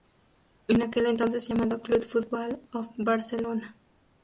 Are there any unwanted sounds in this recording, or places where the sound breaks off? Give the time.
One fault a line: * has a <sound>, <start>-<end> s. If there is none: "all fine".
all fine